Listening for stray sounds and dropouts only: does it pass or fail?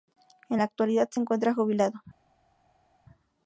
pass